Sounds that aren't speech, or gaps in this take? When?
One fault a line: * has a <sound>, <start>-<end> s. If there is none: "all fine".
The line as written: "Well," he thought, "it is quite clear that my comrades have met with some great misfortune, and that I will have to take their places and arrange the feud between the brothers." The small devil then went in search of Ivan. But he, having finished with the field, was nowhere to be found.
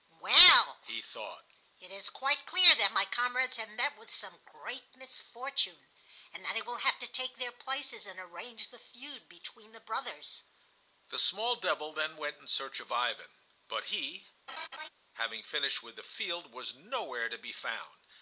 * has a laugh, 14.5-14.9 s